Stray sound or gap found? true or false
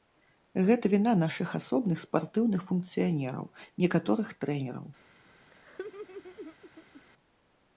true